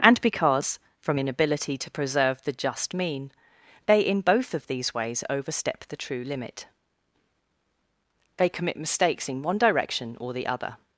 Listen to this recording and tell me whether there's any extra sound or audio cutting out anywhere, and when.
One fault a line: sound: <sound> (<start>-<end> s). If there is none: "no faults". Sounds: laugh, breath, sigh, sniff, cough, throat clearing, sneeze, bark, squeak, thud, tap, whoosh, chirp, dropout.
no faults